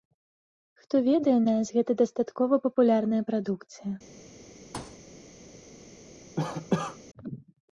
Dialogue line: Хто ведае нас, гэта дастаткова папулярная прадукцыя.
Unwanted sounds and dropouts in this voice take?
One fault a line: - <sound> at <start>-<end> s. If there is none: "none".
- thud at 4.7-5.0 s
- cough at 6.4-7.0 s